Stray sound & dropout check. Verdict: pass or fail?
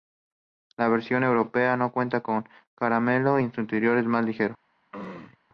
fail